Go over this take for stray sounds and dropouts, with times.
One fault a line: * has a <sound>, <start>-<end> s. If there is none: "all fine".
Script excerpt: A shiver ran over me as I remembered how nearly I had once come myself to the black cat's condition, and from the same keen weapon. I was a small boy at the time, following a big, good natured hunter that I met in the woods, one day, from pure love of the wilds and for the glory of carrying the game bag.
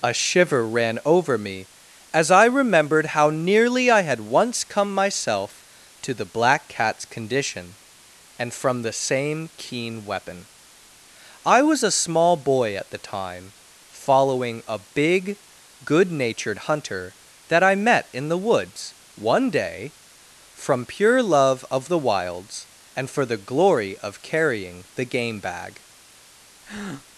* has a breath, 26.6-27.1 s